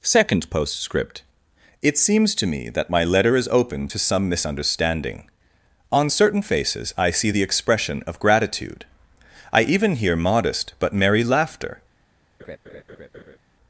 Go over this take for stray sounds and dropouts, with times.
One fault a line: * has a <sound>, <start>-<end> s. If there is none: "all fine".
* has a laugh, 12.4-13.4 s